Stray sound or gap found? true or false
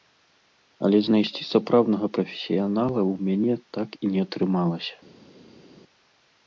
false